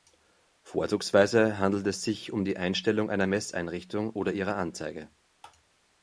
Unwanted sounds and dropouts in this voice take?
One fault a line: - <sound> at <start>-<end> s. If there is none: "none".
none